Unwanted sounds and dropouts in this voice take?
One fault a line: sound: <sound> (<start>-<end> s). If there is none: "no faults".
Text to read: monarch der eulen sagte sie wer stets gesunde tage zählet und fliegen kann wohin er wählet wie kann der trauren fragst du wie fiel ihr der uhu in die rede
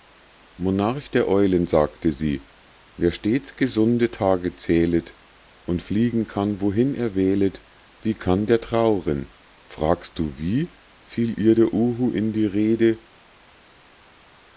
no faults